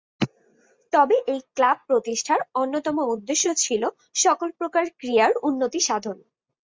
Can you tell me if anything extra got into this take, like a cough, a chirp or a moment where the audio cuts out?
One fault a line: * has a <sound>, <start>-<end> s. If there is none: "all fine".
all fine